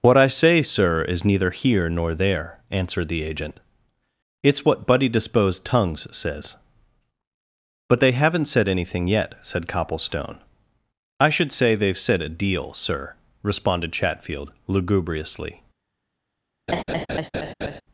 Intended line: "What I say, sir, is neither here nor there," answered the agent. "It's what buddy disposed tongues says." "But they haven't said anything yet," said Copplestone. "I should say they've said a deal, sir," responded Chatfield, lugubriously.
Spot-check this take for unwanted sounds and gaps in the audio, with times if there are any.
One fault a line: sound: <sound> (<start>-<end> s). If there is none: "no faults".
sound: laugh (16.7-17.8 s)